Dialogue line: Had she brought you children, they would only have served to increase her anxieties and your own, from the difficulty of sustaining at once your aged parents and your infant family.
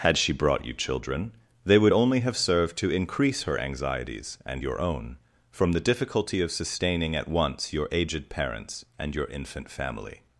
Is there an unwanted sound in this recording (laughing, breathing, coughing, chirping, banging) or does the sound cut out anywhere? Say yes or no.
no